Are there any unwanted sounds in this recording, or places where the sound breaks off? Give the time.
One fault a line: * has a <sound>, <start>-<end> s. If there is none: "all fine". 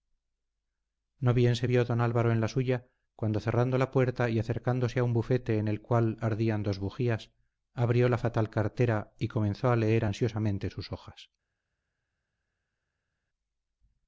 all fine